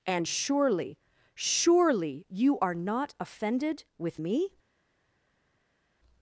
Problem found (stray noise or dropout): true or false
false